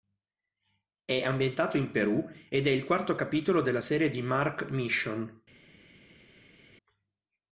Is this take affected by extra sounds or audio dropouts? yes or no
no